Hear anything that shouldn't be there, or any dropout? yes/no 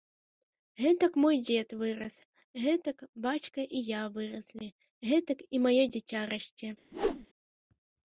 yes